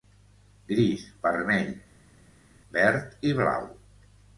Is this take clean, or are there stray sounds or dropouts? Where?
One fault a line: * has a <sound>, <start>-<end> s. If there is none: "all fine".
all fine